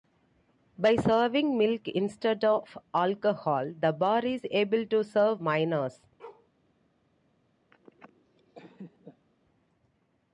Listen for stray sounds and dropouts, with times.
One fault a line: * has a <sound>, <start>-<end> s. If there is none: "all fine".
* has a bark, 6.2-6.5 s
* has a laugh, 7.7-9.3 s